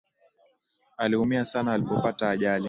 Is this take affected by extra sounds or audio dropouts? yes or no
no